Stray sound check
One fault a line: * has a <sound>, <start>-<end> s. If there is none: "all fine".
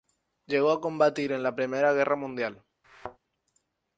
* has a thud, 2.8-3.2 s